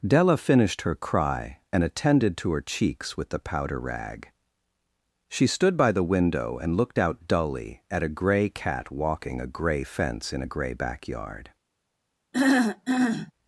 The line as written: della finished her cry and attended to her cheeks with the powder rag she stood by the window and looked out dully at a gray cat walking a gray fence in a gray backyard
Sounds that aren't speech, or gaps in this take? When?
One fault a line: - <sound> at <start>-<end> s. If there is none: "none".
- throat clearing at 12.3-13.3 s